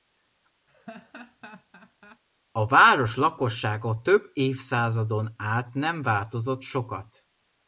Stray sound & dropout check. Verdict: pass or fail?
fail